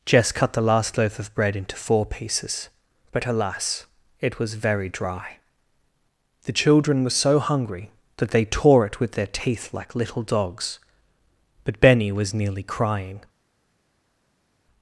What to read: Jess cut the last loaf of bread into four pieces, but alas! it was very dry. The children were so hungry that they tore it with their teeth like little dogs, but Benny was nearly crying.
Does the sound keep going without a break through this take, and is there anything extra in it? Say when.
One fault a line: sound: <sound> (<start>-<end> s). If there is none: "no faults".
no faults